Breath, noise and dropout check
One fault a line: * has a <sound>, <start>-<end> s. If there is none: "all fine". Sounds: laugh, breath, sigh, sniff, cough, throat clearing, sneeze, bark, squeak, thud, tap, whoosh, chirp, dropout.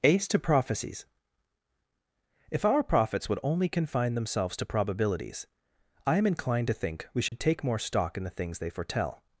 * has a dropout, 7.3-7.3 s